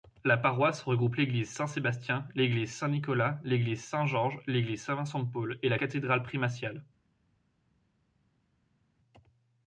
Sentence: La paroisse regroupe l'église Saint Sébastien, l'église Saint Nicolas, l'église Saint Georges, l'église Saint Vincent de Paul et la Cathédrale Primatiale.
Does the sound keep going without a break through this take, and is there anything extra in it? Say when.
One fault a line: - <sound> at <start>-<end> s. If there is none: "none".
none